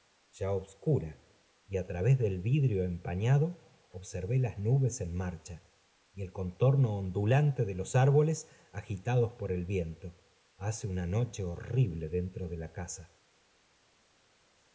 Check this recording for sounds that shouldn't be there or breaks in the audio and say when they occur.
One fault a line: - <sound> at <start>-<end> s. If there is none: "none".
none